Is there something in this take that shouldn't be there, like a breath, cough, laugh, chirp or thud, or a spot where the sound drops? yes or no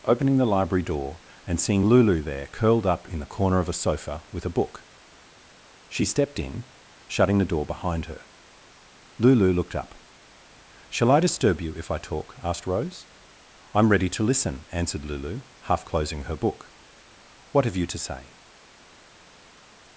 no